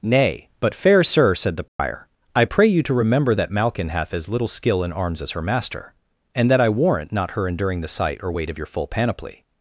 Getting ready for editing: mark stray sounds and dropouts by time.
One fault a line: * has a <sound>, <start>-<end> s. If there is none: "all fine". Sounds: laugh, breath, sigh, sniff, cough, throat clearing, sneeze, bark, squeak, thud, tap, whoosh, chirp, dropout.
* has a dropout, 1.7-1.8 s